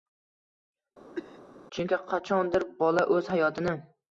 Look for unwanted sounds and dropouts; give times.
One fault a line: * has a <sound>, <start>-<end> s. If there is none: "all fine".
* has a cough, 1.1-1.4 s